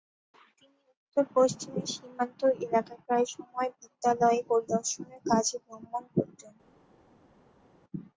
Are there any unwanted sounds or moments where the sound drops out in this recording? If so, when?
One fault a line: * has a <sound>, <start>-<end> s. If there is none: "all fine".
all fine